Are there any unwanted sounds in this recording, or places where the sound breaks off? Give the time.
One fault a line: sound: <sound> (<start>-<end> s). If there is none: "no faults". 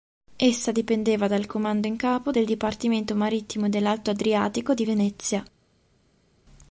no faults